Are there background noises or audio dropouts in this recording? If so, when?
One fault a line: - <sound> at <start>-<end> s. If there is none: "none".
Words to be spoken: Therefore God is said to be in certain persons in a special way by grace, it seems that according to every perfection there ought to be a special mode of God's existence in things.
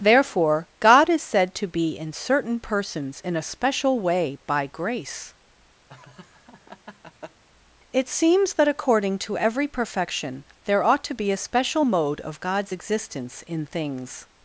- laugh at 5.9-7.4 s